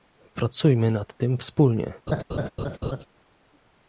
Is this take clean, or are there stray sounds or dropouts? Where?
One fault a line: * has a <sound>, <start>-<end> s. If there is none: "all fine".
* has a laugh, 2.1-3.1 s